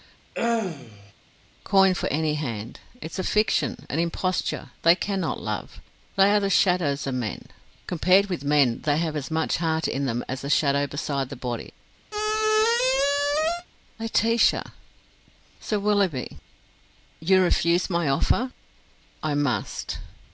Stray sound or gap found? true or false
true